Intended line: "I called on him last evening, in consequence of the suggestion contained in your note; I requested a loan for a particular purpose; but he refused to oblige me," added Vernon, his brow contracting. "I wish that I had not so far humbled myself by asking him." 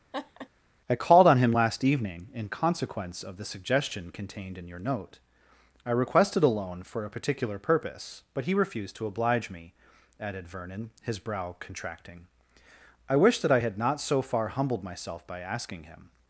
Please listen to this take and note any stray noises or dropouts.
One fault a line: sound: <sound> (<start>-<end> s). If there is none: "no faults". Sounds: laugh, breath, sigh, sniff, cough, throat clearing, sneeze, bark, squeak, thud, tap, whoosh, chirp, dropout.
sound: laugh (0.1-0.5 s)